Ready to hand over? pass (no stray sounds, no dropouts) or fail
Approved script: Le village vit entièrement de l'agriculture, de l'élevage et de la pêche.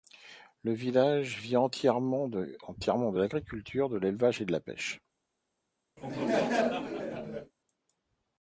fail